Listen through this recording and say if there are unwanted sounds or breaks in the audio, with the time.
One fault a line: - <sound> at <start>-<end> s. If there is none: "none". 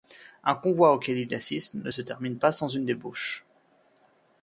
none